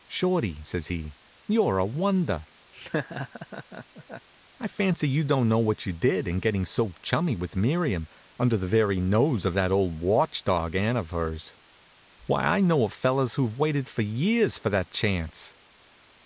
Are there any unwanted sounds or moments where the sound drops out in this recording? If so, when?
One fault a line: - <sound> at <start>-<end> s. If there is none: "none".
- laugh at 2.7-4.3 s